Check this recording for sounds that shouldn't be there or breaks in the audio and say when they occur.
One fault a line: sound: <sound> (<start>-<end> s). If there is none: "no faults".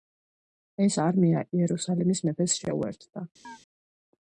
sound: chirp (3.4-3.6 s)